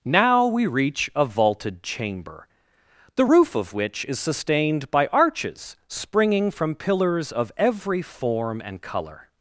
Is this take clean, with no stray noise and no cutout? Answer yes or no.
yes